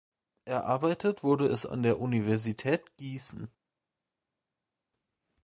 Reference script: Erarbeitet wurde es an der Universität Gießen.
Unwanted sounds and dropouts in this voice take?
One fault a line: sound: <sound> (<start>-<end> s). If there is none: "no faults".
no faults